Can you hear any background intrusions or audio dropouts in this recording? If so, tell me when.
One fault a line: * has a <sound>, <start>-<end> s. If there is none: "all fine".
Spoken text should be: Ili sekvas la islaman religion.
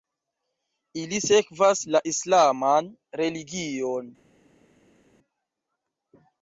all fine